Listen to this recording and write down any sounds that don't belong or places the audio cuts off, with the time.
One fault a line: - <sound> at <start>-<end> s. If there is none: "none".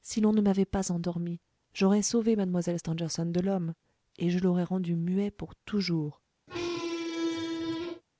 - squeak at 6.5-8.0 s